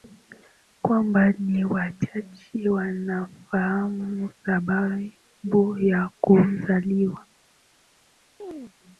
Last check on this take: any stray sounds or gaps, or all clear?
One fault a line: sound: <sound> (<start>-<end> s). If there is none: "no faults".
sound: chirp (8.4-8.7 s)